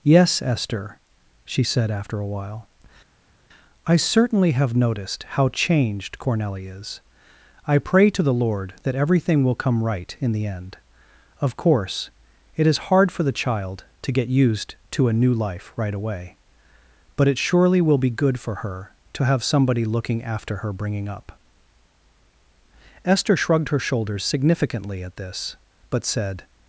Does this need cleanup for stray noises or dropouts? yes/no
no